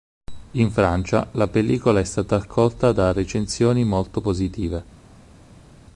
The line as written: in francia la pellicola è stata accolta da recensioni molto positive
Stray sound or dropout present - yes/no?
no